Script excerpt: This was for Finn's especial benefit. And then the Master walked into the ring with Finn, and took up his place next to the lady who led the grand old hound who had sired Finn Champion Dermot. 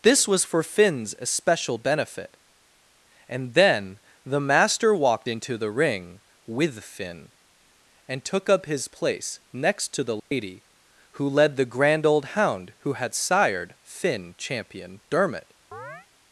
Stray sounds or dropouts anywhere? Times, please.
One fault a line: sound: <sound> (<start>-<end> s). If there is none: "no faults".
sound: dropout (10.2-10.3 s)
sound: chirp (15.7-16.1 s)